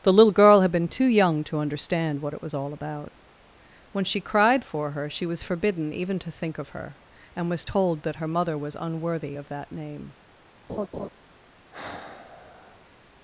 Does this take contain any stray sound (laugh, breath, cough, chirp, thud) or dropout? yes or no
yes